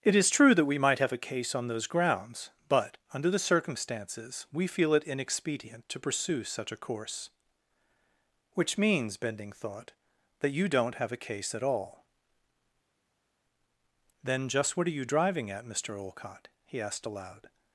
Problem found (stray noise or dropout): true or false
false